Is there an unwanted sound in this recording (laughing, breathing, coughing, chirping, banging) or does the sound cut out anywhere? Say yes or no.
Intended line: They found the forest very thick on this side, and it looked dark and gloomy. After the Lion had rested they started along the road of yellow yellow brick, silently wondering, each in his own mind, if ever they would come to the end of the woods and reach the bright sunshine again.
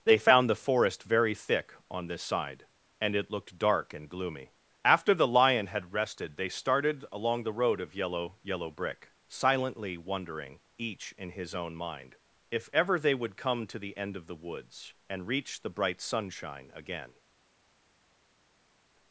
no